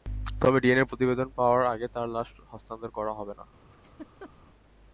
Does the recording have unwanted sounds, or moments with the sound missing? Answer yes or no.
yes